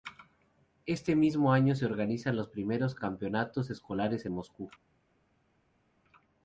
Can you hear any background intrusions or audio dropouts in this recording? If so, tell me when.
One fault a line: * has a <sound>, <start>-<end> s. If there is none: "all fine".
all fine